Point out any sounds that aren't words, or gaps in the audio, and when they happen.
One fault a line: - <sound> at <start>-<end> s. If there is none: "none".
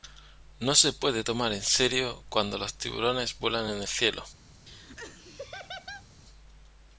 - laugh at 4.7-6.1 s